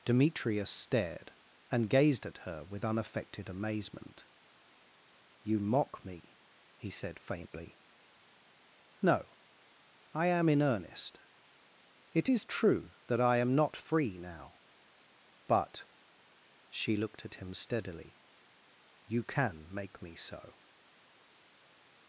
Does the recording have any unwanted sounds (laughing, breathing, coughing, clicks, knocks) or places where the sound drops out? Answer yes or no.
no